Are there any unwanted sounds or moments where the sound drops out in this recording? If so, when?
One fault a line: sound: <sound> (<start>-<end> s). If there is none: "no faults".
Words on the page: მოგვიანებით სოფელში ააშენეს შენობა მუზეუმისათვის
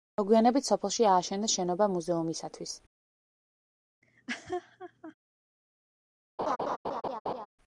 sound: laugh (4.0-5.1 s)
sound: laugh (6.4-7.5 s)